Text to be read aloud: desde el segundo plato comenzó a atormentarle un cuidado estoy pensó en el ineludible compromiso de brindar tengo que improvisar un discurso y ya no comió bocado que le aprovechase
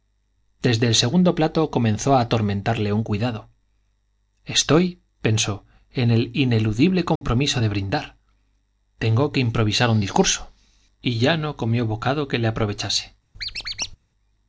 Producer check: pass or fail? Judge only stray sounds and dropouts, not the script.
fail